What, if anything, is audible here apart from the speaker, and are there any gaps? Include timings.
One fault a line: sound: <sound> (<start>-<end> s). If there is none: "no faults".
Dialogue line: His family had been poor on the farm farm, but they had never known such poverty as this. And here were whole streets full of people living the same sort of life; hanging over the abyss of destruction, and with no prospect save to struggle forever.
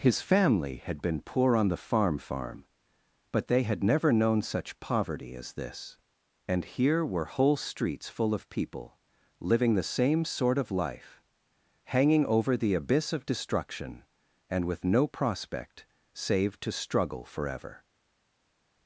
no faults